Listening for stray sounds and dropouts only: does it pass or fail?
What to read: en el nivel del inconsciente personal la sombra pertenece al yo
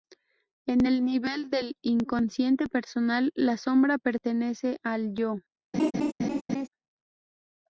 fail